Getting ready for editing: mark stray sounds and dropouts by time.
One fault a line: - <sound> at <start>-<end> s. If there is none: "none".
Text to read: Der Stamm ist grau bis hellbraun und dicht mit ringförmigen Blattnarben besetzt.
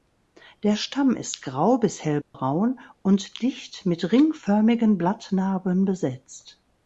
- dropout at 2.2-2.3 s